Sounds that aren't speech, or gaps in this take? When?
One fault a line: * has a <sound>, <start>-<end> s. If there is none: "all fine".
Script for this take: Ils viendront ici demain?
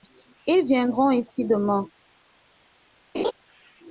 * has a laugh, 3.1-3.3 s